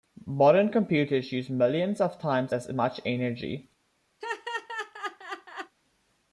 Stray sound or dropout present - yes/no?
yes